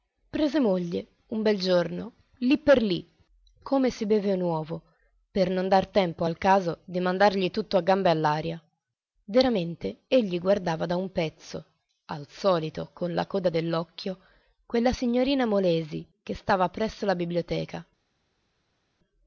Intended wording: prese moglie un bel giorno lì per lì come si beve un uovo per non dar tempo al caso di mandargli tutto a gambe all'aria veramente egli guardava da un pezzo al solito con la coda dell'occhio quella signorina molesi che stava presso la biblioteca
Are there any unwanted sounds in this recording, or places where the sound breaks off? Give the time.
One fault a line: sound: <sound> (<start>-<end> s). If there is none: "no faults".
no faults